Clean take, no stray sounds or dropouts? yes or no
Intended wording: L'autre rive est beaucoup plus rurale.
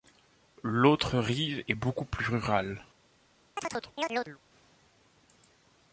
no